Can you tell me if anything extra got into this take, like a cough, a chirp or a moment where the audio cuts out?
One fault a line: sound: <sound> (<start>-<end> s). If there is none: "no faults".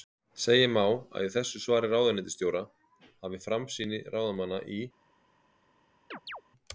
sound: chirp (6.1-6.4 s)